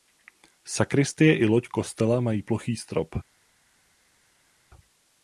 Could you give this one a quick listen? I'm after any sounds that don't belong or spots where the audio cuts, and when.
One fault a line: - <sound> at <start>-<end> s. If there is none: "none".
none